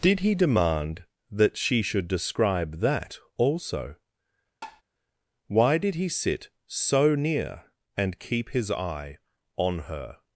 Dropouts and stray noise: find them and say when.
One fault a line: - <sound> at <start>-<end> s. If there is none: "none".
- tap at 4.6-4.8 s